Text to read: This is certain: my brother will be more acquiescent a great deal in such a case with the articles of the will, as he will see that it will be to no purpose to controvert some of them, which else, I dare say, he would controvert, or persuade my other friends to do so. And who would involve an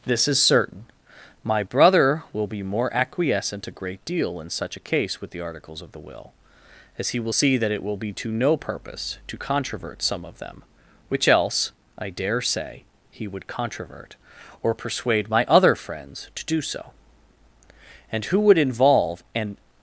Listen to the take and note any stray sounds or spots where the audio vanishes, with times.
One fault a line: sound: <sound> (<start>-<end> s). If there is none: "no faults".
no faults